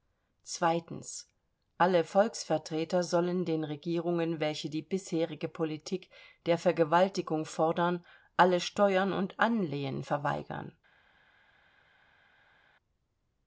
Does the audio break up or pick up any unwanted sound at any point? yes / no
no